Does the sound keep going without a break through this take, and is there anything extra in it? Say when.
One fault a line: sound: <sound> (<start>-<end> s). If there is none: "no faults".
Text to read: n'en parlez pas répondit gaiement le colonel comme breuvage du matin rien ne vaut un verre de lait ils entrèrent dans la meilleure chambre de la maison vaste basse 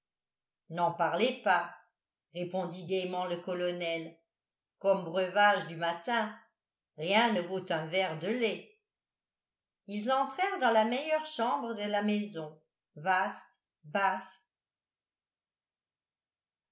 no faults